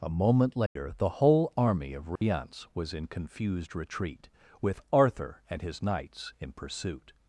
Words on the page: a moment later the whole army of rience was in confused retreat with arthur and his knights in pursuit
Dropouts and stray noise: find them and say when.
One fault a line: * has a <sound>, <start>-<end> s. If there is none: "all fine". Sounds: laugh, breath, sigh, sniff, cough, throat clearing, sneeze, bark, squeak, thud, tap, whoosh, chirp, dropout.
* has a dropout, 0.7-0.8 s
* has a dropout, 2.2-2.2 s